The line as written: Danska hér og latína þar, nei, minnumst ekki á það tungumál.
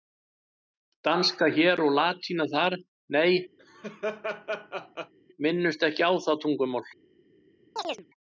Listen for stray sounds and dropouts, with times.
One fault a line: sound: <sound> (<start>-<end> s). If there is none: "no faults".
sound: laugh (3.6-5.1 s)
sound: chirp (7.8-8.1 s)